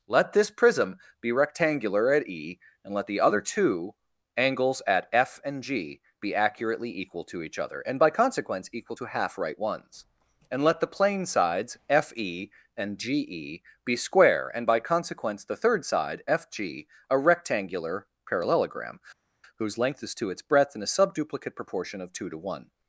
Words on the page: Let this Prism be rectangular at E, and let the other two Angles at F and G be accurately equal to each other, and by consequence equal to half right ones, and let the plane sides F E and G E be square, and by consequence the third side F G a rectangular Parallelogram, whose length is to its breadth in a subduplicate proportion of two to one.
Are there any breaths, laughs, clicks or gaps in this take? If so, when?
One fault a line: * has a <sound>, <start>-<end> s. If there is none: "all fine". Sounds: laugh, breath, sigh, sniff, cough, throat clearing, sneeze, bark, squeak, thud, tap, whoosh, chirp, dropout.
all fine